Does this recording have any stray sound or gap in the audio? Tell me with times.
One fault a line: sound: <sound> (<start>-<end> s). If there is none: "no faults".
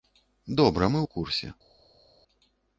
no faults